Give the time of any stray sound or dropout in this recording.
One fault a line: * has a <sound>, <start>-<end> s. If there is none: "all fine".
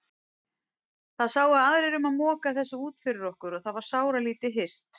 all fine